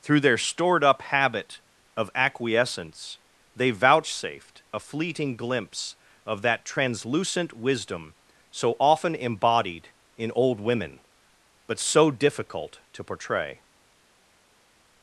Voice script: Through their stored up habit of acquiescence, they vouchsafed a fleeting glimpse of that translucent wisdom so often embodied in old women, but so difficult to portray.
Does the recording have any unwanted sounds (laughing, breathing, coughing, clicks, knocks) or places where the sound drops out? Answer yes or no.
no